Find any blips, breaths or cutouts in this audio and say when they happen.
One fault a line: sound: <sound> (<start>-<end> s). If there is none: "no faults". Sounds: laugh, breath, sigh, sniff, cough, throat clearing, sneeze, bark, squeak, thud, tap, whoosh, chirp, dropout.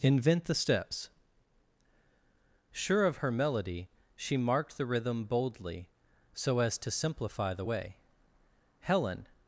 no faults